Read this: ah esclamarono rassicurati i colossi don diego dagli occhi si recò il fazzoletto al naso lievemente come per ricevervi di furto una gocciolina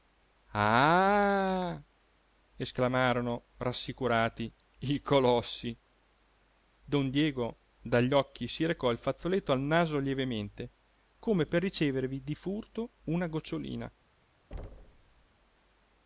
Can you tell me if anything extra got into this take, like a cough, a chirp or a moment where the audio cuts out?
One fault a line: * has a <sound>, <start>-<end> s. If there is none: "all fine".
* has a thud, 14.5-15.3 s